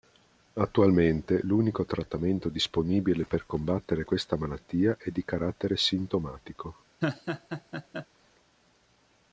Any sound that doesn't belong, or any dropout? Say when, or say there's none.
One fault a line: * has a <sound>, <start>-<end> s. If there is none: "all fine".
* has a laugh, 7.0-8.1 s